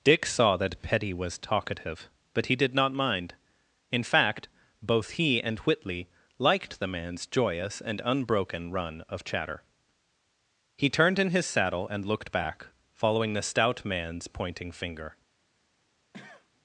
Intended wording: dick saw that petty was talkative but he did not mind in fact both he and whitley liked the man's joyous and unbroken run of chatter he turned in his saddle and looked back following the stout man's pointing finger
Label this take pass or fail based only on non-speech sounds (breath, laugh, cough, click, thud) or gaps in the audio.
fail